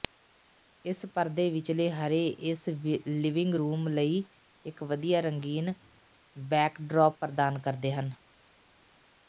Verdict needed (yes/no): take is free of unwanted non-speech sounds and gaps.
yes